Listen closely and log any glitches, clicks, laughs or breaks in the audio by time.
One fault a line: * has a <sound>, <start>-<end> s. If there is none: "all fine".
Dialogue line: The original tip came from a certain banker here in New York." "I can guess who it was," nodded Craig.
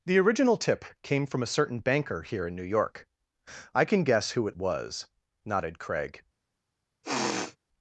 * has a sniff, 7.0-7.6 s